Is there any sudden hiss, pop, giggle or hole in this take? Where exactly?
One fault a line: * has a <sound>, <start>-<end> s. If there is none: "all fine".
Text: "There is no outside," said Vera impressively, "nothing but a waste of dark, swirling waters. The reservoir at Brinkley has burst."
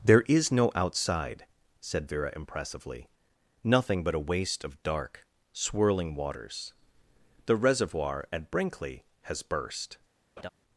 * has a laugh, 10.4-10.5 s